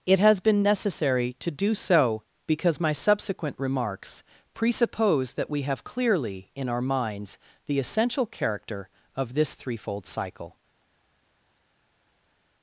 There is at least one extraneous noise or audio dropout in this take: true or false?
false